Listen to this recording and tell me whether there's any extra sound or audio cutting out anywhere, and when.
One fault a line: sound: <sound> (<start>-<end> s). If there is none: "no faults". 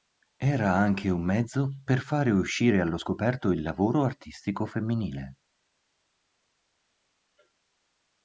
no faults